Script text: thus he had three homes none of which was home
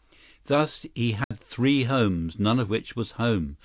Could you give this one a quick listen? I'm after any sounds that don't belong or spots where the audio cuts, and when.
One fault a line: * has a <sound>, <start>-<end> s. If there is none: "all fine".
* has a dropout, 1.2-1.3 s